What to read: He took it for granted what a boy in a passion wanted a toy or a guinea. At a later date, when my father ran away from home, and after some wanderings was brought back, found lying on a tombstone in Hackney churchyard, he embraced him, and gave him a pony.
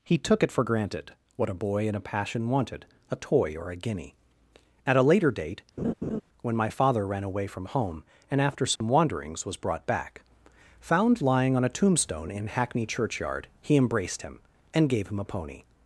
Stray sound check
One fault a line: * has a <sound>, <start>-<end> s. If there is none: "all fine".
* has a laugh, 5.8-6.2 s
* has a dropout, 8.8-8.8 s